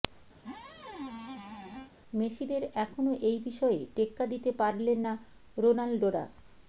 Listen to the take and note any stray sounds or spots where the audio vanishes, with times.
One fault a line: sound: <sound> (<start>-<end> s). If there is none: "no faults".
sound: squeak (0.4-1.9 s)